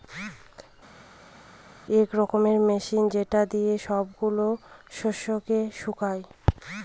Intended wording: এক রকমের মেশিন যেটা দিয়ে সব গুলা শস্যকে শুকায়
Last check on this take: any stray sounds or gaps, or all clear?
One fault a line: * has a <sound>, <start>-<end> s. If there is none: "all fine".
all fine